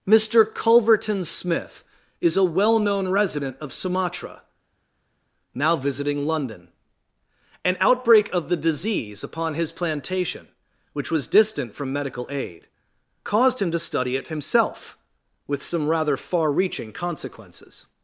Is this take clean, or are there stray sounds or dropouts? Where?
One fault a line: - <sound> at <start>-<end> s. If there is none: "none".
none